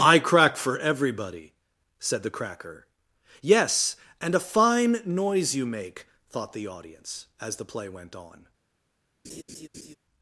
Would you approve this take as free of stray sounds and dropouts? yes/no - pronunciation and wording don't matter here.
no